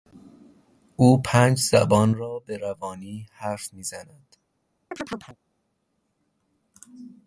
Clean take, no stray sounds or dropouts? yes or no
no